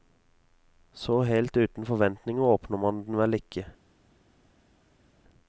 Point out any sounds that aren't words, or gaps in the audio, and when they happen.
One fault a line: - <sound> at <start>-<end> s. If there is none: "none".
none